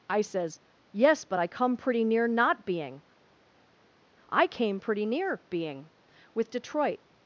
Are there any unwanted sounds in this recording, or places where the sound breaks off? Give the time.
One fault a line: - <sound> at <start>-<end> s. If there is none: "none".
none